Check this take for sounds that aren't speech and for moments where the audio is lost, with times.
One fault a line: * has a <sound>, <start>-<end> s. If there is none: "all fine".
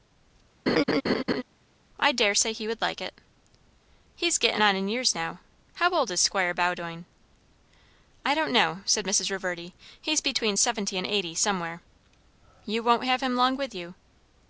* has a laugh, 0.7-1.4 s